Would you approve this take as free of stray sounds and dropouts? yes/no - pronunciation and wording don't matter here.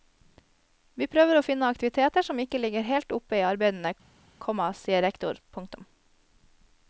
yes